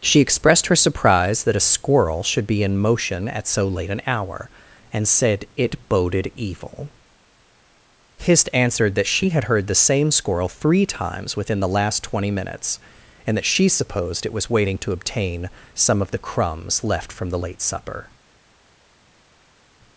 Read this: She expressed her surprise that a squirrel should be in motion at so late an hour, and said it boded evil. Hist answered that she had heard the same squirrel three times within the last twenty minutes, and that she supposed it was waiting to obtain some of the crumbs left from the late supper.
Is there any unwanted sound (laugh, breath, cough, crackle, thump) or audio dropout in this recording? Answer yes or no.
no